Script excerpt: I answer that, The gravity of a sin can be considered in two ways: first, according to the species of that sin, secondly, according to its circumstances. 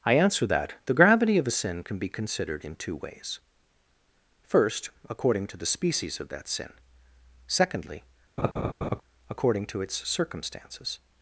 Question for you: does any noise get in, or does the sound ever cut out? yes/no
yes